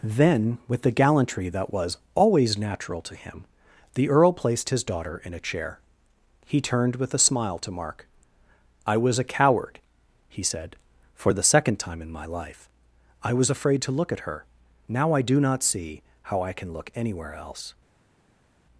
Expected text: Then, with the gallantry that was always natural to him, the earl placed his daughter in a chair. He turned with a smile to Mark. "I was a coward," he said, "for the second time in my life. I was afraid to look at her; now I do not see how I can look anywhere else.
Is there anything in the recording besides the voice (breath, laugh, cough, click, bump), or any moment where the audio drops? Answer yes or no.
no